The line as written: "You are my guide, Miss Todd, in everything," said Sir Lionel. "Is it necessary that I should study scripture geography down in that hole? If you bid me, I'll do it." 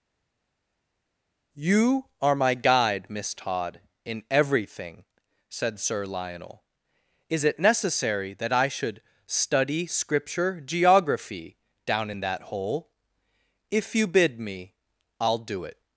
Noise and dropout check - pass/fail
pass